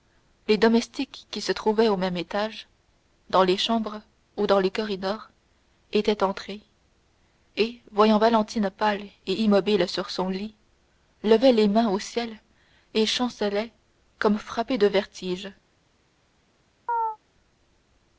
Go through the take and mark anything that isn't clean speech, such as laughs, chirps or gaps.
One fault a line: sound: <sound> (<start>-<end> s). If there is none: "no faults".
sound: chirp (16.9-17.2 s)